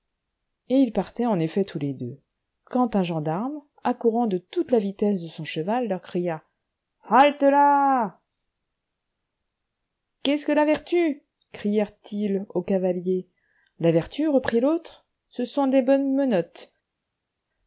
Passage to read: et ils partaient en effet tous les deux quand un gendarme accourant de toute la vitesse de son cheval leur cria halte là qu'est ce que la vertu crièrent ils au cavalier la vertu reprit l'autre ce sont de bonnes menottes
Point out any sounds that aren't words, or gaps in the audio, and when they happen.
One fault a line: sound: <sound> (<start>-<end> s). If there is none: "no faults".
no faults